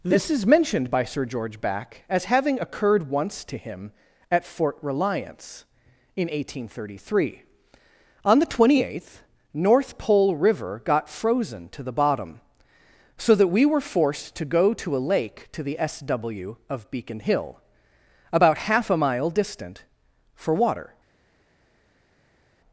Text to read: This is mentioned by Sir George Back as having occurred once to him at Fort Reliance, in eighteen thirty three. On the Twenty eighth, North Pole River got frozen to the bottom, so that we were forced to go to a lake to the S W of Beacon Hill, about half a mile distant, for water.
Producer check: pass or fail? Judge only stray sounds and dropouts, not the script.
pass